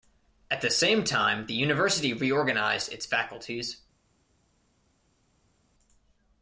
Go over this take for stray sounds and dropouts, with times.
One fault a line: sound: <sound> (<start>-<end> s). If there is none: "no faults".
no faults